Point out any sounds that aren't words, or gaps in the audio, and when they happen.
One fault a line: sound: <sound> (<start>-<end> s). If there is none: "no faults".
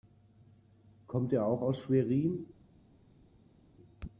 no faults